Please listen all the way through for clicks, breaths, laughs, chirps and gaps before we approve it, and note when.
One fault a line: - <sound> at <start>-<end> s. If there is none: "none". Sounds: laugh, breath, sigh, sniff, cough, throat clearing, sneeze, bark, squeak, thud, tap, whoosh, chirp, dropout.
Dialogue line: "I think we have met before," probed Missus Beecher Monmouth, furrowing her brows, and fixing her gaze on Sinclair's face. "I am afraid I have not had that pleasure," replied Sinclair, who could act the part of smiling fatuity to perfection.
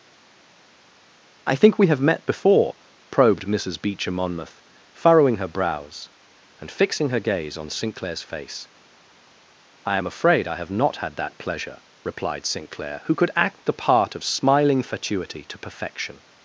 none